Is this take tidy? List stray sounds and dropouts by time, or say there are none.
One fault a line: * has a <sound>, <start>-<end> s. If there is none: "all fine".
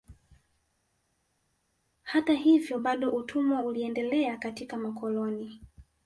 all fine